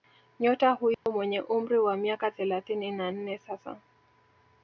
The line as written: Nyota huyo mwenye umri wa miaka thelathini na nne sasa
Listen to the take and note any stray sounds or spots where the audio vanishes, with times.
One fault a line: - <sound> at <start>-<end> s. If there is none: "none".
- dropout at 0.9-1.1 s